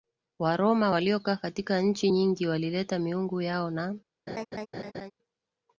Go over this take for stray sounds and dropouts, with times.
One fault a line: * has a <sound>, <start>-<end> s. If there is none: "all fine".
* has a laugh, 4.3-5.1 s